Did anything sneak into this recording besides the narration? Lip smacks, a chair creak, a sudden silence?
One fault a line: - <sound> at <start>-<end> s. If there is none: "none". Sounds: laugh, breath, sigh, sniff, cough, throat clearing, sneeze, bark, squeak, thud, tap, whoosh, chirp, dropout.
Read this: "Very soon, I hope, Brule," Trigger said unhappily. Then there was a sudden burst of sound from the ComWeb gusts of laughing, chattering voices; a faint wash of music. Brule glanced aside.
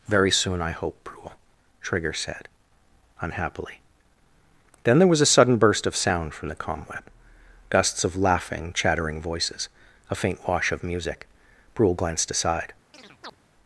- chirp at 12.9-13.4 s